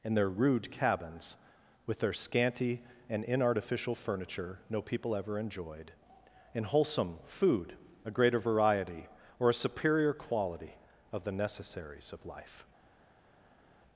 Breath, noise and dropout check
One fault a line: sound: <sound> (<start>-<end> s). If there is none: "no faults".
no faults